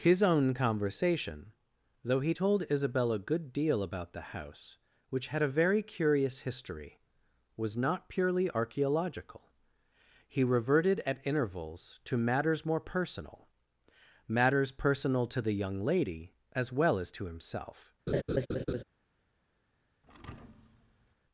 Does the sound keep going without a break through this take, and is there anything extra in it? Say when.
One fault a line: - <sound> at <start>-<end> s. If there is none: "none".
- laugh at 18.1-18.8 s
- thud at 20.0-21.2 s